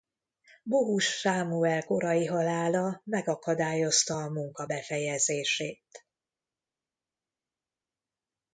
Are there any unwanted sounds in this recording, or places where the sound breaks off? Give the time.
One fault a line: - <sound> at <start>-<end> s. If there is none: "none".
none